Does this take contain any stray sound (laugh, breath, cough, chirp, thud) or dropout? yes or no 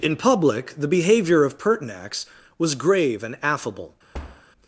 yes